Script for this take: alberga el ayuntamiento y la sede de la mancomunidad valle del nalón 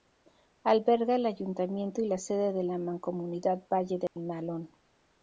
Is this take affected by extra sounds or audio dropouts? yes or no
yes